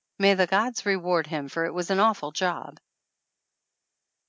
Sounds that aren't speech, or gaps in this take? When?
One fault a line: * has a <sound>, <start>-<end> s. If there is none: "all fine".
all fine